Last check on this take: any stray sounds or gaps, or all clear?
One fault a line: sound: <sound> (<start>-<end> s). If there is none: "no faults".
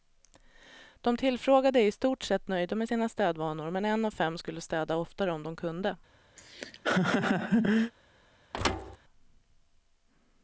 sound: laugh (6.4-7.9 s)
sound: thud (8.5-9.0 s)